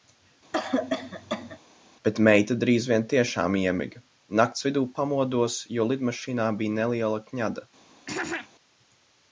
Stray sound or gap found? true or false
true